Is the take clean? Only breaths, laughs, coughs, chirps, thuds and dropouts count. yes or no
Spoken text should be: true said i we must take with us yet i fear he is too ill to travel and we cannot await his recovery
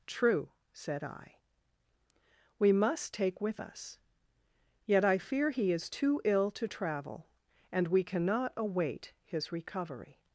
yes